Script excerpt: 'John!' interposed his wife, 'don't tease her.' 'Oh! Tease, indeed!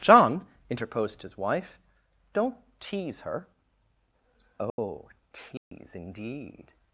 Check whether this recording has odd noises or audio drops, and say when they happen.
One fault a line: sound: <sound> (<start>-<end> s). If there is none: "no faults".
sound: dropout (4.7-4.8 s)
sound: dropout (5.6-5.7 s)